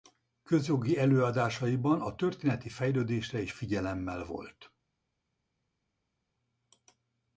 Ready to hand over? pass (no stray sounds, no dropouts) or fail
pass